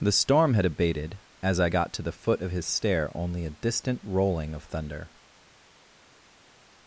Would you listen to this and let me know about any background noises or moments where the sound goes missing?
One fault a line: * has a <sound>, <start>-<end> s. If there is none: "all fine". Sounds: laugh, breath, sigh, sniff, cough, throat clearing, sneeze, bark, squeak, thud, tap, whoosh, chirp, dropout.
all fine